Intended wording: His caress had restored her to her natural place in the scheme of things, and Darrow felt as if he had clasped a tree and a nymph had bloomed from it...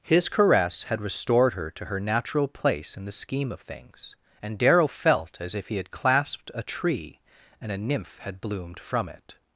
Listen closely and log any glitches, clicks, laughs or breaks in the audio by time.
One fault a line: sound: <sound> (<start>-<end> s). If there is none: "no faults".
no faults